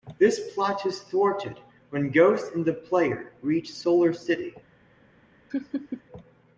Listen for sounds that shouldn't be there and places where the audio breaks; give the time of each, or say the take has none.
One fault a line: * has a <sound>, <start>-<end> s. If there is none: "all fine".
* has a laugh, 5.5-6.0 s